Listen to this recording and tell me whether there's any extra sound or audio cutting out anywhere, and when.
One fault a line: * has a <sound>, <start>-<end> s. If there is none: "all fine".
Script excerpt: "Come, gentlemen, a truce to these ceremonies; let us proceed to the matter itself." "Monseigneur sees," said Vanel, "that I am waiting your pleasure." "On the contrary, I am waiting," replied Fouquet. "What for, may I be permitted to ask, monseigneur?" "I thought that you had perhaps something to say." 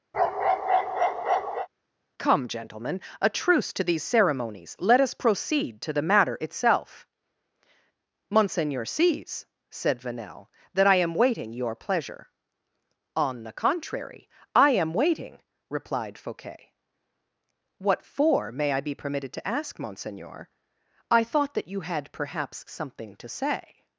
* has a bark, 0.1-1.7 s